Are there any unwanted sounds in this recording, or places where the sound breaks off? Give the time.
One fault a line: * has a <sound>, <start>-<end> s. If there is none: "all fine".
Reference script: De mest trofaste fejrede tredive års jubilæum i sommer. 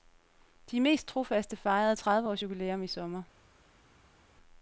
all fine